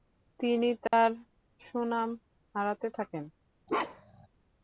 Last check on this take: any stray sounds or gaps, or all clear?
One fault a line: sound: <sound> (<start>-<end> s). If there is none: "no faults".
sound: dropout (0.9-0.9 s)
sound: bark (3.7-4.3 s)